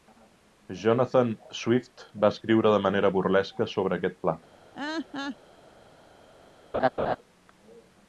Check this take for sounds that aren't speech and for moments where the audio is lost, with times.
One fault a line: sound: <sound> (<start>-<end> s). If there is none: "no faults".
sound: laugh (4.7-5.4 s)
sound: laugh (6.7-7.2 s)